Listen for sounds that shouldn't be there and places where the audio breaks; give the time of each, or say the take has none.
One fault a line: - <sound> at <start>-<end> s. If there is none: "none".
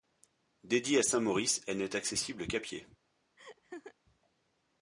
- laugh at 3.4-3.9 s